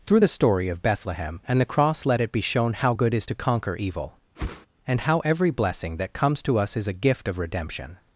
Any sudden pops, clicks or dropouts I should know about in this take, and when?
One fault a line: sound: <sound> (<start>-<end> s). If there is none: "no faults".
sound: whoosh (4.4-4.7 s)